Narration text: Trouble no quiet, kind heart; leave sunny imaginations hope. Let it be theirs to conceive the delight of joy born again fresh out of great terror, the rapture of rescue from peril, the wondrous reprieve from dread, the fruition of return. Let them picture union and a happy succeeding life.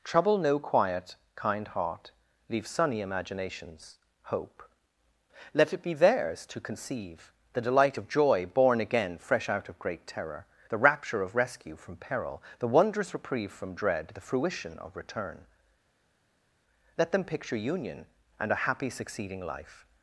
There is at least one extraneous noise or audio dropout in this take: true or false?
false